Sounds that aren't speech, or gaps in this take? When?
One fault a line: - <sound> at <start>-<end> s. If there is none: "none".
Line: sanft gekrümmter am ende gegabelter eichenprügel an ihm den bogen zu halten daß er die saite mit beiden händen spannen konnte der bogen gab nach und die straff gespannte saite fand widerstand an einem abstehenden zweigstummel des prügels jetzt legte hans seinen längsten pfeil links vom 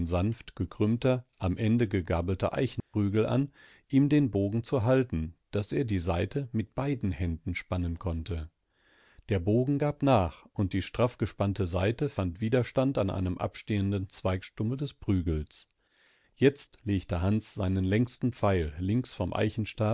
- dropout at 2.8-2.9 s